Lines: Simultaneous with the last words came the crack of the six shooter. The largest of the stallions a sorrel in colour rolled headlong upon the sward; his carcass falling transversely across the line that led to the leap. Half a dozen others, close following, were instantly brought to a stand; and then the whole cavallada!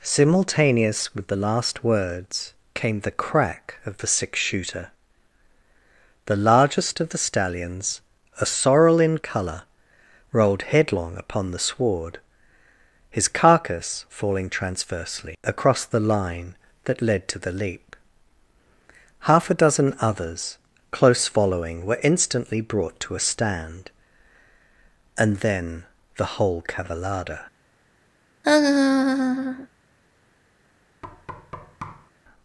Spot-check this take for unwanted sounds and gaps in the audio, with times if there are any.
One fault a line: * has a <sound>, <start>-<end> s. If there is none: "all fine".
* has a laugh, 28.4-29.7 s
* has a thud, 31.0-32.1 s